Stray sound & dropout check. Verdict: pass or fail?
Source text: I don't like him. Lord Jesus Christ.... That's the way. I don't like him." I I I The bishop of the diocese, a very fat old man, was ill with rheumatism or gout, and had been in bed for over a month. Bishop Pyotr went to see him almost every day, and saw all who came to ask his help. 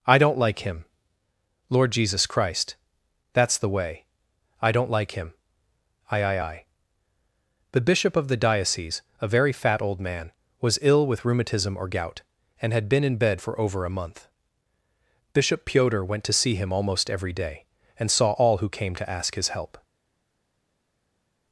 pass